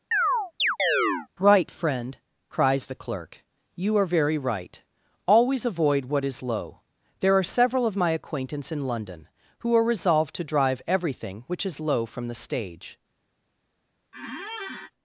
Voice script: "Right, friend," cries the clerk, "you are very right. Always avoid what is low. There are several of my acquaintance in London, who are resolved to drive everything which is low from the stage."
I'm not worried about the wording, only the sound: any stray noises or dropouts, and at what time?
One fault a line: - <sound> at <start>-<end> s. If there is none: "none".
- chirp at 0.1-1.3 s
- squeak at 14.1-14.9 s